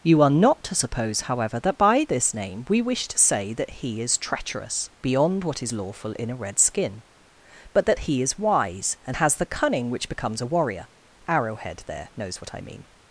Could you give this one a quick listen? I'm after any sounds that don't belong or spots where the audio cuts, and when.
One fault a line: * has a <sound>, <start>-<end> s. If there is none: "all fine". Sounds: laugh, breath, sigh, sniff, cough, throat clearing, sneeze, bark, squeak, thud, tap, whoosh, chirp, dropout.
all fine